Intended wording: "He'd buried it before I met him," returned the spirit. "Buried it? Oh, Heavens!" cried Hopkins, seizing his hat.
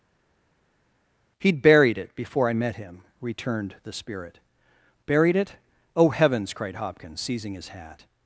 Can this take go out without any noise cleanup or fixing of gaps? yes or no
yes